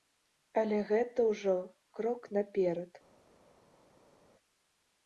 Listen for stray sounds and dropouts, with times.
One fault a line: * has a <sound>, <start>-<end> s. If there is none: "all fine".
all fine